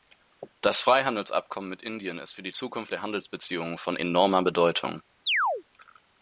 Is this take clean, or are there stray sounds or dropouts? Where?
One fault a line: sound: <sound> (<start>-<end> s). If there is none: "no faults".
sound: chirp (5.3-5.6 s)